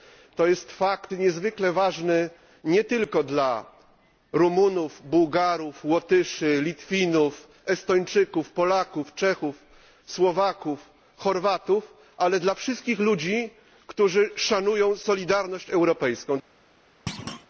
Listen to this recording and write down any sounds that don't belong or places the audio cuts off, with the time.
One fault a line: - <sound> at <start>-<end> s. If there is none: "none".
- thud at 17.1-17.5 s